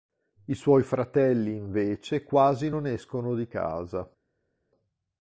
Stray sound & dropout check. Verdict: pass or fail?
pass